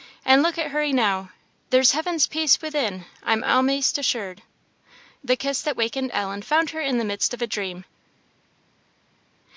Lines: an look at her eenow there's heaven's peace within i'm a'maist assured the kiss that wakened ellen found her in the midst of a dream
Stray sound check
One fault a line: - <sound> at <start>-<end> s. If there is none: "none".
none